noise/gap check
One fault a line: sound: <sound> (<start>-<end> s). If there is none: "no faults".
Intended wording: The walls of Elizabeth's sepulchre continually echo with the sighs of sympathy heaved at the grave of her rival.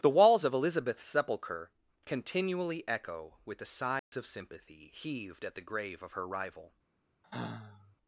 sound: dropout (4.0-4.1 s)
sound: sigh (7.2-8.0 s)